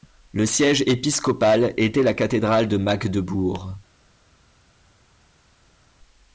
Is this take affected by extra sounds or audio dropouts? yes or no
no